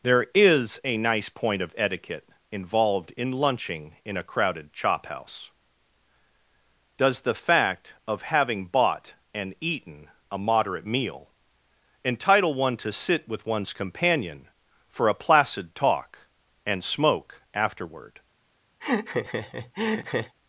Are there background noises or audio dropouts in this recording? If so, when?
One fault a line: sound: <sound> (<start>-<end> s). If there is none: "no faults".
sound: laugh (18.8-20.4 s)